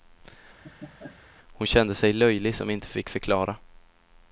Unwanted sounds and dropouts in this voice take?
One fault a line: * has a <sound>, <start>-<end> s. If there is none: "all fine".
* has a laugh, 0.6-1.2 s